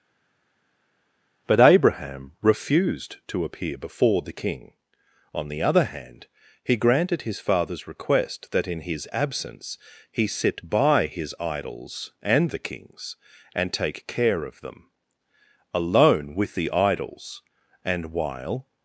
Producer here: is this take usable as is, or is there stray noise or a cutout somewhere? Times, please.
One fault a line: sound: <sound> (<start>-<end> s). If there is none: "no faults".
no faults